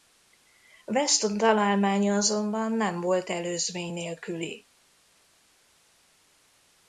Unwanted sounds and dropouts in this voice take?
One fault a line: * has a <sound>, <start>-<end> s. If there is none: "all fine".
all fine